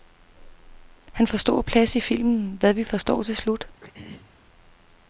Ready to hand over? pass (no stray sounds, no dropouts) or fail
fail